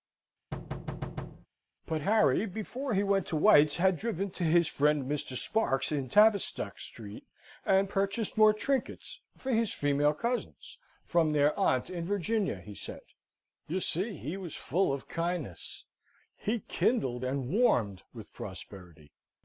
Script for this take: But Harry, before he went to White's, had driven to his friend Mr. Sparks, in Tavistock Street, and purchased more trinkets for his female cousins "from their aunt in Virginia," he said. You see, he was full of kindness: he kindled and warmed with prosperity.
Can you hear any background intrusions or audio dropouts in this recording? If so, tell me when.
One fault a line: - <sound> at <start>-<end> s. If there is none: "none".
- thud at 0.5-1.5 s